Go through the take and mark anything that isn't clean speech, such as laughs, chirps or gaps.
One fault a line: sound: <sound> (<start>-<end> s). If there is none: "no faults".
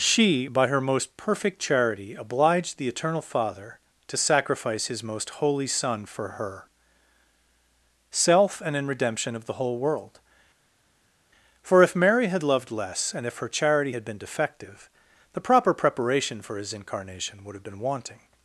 no faults